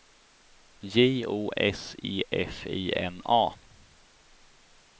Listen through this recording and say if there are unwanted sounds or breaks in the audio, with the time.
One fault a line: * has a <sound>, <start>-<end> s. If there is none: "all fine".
all fine